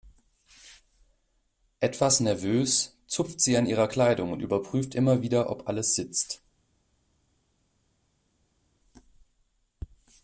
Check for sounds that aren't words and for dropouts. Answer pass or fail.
pass